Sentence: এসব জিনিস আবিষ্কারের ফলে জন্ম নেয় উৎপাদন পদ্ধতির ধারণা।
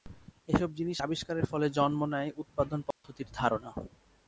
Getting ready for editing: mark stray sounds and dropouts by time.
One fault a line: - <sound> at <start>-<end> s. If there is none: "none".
- dropout at 2.9-3.0 s